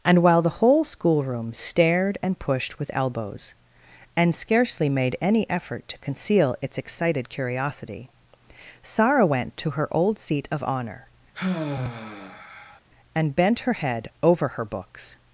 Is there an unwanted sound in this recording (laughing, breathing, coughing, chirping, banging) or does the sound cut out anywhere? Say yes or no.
yes